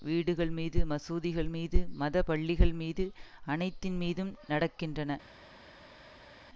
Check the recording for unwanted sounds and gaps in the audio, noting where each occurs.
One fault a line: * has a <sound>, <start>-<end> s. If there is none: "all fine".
all fine